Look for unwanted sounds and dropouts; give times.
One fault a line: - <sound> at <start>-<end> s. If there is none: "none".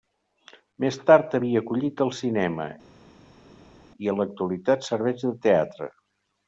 none